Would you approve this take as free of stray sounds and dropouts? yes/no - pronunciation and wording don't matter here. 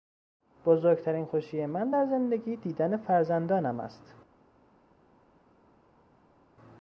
yes